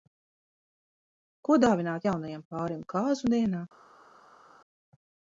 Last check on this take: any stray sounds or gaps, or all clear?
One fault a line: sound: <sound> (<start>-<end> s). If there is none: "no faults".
no faults